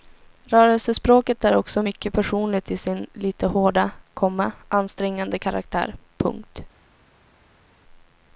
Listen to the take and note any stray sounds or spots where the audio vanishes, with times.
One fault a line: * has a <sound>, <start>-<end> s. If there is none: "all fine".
all fine